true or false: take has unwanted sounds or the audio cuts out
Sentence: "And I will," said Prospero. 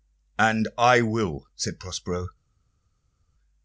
false